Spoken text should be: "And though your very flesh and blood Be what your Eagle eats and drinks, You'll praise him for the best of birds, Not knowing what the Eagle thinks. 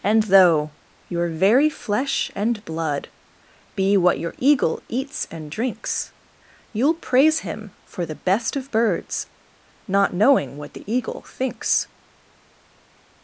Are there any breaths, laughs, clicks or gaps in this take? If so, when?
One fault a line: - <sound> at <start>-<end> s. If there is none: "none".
none